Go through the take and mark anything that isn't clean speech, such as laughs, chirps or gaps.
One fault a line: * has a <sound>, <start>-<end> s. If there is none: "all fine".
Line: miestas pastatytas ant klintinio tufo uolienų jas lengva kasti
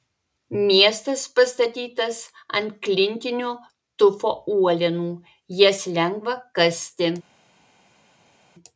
all fine